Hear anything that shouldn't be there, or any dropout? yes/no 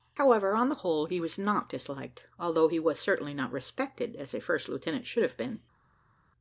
no